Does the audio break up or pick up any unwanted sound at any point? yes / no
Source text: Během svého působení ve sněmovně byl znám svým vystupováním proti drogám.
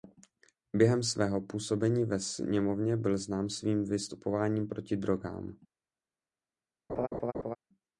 yes